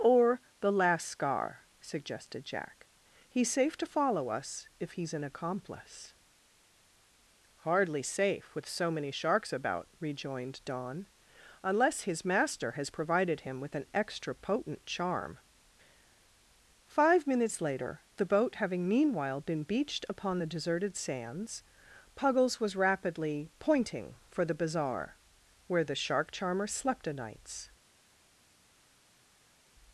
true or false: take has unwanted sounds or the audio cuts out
false